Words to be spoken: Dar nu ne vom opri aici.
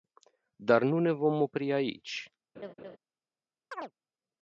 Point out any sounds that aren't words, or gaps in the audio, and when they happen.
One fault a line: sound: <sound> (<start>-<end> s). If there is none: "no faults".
sound: laugh (2.6-3.0 s)
sound: chirp (3.7-3.9 s)